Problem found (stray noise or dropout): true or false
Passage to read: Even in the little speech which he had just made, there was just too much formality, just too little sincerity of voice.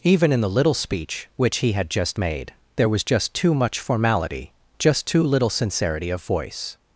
false